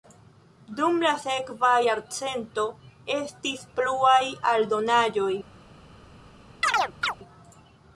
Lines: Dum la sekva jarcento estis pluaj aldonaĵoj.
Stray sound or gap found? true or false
true